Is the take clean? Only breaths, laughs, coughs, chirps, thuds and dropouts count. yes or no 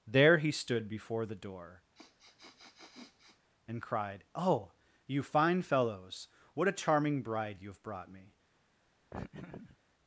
no